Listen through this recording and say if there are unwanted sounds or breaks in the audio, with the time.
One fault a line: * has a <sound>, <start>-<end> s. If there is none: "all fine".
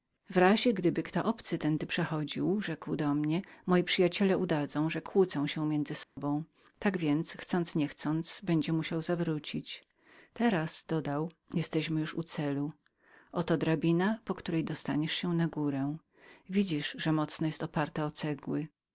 * has a dropout, 6.0-6.2 s